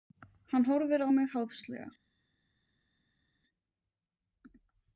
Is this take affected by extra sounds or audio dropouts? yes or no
no